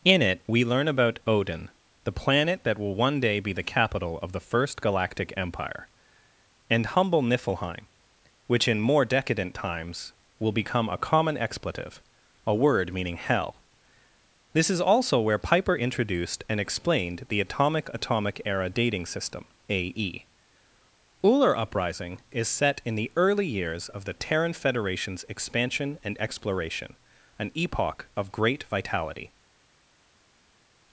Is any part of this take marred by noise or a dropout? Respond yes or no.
no